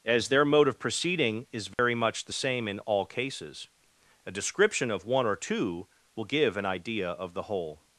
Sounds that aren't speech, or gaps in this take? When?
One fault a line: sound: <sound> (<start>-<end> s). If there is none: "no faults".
sound: dropout (1.7-1.8 s)